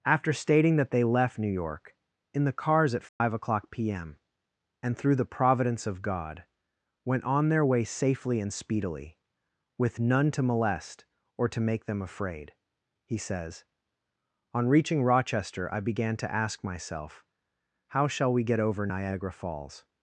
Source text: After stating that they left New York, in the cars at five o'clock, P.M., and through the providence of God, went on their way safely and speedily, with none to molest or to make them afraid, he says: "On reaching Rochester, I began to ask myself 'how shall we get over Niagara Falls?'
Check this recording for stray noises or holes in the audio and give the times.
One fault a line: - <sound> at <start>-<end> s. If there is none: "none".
- dropout at 3.1-3.2 s